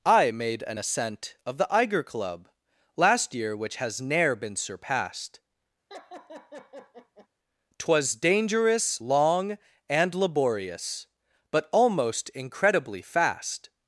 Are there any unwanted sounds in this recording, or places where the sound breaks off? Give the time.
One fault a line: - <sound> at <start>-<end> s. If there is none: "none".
- laugh at 5.9-7.3 s